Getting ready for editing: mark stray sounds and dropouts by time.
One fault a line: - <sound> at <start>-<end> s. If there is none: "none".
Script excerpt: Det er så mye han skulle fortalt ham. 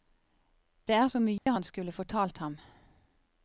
- dropout at 1.4-1.5 s